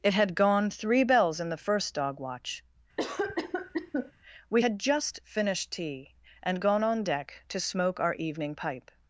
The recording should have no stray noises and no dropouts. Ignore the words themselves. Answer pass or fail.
fail